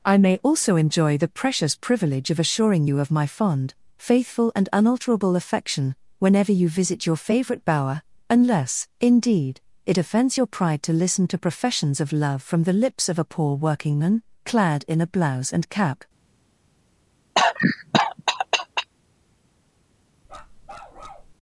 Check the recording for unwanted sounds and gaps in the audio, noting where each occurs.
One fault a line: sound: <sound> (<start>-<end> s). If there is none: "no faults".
sound: cough (17.4-18.9 s)
sound: bark (20.2-21.3 s)